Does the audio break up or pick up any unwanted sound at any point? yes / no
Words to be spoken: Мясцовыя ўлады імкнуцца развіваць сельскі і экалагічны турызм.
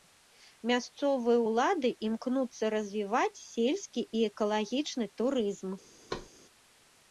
yes